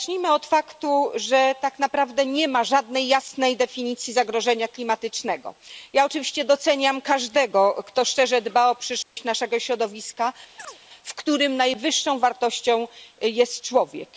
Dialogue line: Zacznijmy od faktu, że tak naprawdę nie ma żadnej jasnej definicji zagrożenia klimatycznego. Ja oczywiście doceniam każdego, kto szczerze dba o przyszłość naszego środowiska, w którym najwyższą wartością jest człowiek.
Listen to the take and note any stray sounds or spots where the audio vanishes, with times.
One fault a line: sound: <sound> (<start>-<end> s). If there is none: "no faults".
sound: dropout (9.0-9.2 s)
sound: chirp (10.6-10.8 s)